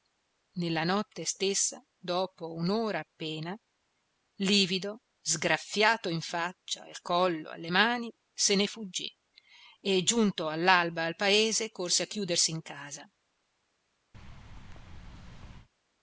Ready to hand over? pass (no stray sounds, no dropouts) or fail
fail